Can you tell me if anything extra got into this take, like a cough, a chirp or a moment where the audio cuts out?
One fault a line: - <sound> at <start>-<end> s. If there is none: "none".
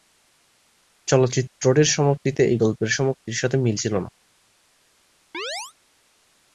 - chirp at 5.3-5.7 s